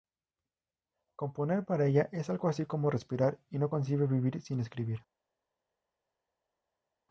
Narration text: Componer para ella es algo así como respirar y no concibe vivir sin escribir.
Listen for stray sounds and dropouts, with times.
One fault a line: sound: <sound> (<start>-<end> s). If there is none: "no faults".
no faults